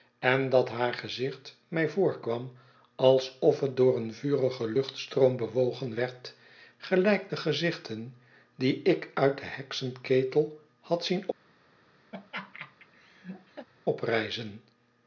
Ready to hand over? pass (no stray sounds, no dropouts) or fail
fail